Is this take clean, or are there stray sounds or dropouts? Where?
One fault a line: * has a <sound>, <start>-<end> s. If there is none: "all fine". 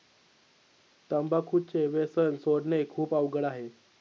all fine